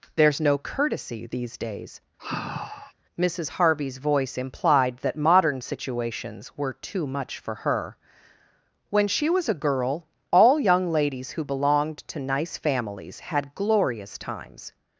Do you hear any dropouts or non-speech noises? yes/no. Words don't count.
yes